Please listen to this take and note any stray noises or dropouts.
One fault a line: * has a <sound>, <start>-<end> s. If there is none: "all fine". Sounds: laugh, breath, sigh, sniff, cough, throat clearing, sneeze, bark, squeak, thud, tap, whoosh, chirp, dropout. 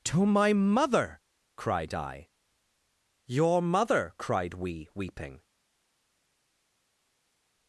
all fine